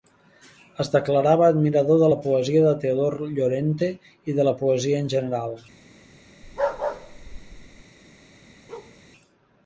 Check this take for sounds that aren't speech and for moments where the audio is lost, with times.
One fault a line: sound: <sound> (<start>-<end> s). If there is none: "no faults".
sound: bark (6.4-7.8 s)
sound: bark (8.7-9.0 s)